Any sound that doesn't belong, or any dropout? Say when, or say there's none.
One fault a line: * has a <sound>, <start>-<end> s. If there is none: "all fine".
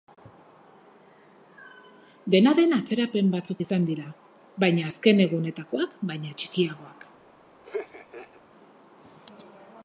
* has a laugh, 7.6-8.4 s